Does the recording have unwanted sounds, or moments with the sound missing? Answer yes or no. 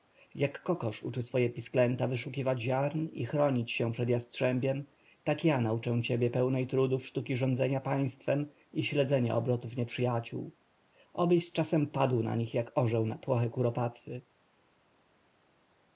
no